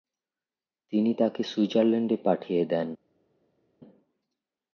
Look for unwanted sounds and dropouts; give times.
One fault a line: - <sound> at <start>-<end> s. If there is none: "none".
none